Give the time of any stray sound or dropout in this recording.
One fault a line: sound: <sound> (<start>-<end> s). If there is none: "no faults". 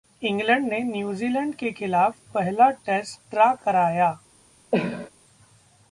sound: cough (4.7-5.1 s)